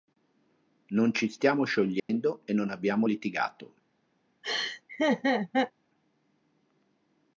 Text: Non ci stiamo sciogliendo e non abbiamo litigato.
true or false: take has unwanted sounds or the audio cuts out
true